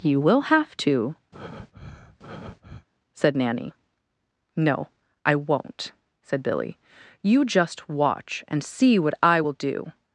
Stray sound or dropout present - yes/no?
yes